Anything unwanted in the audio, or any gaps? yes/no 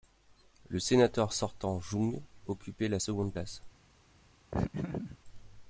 yes